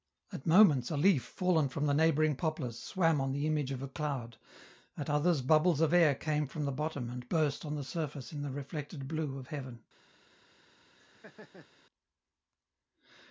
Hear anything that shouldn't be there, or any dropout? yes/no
yes